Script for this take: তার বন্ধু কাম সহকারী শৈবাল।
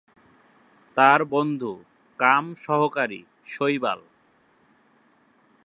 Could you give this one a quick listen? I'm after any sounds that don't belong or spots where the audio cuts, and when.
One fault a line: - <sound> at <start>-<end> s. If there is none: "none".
none